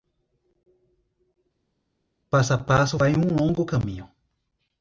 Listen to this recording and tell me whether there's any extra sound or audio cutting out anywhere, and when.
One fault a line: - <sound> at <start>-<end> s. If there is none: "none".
none